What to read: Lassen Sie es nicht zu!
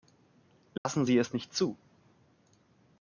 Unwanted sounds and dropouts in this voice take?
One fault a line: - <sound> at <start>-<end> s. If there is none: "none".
- dropout at 0.8-0.9 s